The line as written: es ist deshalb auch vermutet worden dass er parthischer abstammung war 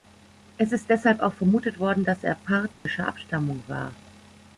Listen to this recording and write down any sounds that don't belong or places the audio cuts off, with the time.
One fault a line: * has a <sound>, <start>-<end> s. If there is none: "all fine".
* has a dropout, 2.7-2.9 s